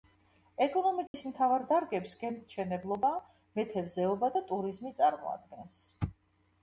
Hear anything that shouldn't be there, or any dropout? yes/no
yes